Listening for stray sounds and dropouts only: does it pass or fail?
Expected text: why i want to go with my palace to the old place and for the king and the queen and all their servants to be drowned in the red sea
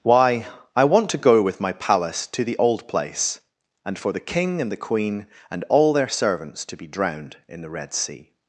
pass